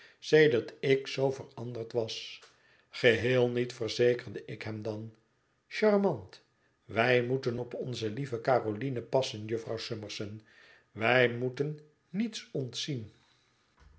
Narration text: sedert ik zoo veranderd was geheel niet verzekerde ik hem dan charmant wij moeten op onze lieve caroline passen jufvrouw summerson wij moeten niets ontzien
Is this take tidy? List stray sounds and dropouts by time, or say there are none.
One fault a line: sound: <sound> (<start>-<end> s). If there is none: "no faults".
no faults